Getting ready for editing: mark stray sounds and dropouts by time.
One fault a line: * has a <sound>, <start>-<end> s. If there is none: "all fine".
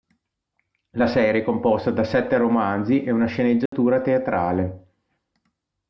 * has a dropout, 3.7-3.7 s